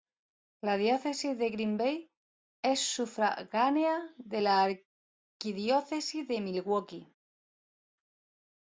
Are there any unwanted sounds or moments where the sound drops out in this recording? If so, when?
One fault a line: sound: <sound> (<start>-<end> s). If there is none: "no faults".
no faults